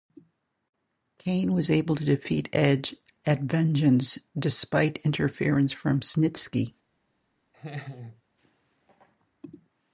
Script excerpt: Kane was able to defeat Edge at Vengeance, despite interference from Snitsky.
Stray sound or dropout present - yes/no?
yes